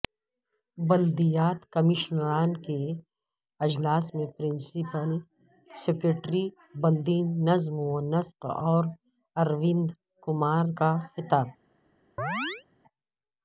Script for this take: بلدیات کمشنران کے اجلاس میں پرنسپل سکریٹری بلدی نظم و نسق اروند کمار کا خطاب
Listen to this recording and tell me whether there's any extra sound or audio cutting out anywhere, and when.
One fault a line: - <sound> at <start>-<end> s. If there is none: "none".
- chirp at 12.2-12.6 s